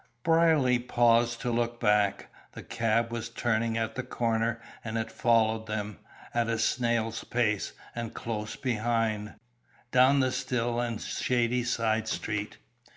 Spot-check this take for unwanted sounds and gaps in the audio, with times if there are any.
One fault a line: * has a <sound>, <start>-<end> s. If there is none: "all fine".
all fine